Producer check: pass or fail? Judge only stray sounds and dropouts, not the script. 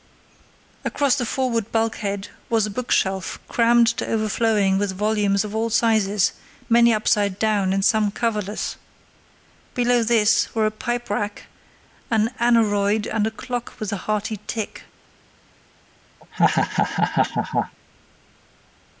fail